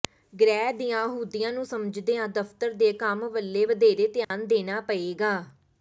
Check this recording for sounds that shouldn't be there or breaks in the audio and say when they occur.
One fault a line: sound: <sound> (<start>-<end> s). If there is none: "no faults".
sound: dropout (4.2-4.3 s)